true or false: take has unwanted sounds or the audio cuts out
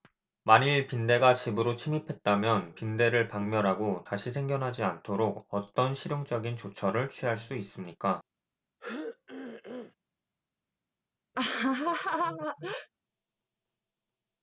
true